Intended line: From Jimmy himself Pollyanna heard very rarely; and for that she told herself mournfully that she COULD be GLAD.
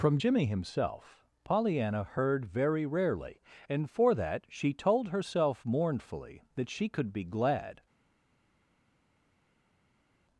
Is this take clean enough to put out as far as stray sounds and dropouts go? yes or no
yes